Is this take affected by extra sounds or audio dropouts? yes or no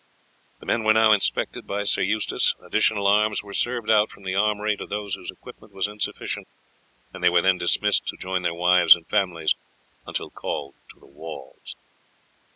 no